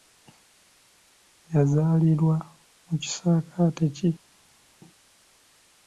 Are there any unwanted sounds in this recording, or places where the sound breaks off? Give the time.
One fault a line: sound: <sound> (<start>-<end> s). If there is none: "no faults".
no faults